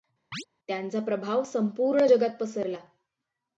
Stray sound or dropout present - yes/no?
yes